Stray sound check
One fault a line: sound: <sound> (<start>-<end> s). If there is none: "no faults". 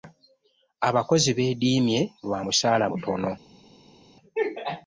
no faults